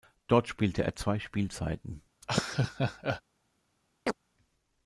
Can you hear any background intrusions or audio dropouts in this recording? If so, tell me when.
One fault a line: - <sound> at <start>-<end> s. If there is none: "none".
- laugh at 2.2-3.2 s
- chirp at 4.1-4.2 s